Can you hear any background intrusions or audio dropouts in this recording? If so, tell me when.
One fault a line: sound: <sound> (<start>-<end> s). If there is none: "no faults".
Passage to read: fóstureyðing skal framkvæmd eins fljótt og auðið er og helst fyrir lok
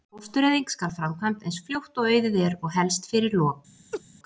sound: laugh (3.9-4.0 s)